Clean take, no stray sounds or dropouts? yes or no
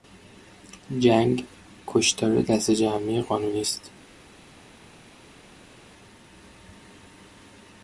yes